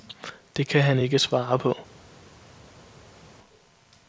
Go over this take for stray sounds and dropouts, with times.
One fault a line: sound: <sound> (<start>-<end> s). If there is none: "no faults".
no faults